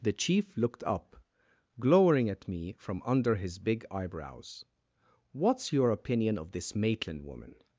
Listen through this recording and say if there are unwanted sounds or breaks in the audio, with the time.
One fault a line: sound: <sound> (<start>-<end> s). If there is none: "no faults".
no faults